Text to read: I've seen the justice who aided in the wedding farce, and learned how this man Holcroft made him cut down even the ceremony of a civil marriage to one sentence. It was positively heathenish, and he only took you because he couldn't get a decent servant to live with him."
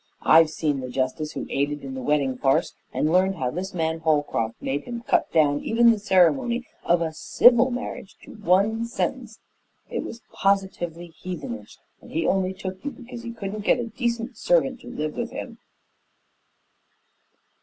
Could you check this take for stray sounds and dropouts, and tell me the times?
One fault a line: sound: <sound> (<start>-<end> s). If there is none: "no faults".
no faults